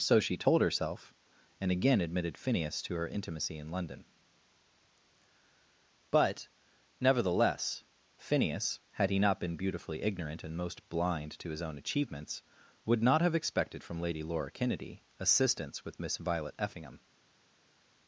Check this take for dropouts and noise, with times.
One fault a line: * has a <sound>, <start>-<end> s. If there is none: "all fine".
all fine